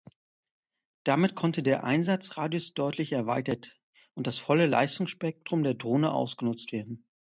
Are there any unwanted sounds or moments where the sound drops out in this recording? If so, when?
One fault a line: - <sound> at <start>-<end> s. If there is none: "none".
none